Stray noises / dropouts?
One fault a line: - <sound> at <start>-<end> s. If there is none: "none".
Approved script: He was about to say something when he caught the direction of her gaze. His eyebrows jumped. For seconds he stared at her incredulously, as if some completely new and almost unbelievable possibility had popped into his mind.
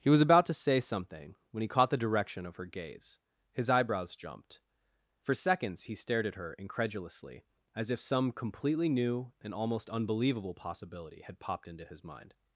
none